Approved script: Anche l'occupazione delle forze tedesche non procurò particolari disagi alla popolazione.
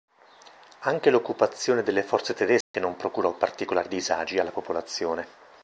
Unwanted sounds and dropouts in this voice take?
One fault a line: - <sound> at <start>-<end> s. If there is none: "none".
- dropout at 2.6-2.7 s